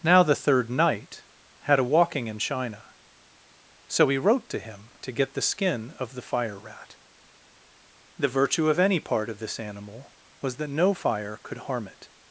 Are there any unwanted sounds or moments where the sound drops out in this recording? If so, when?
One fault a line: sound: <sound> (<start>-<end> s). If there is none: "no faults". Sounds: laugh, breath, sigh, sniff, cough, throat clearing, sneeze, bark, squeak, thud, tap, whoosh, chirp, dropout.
no faults